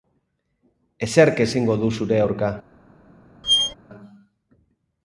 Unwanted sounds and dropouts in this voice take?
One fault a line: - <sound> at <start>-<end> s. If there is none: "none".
- squeak at 3.4-3.7 s